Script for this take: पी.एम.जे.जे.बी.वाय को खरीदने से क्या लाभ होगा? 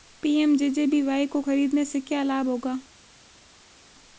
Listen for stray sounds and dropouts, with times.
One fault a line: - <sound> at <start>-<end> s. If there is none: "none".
none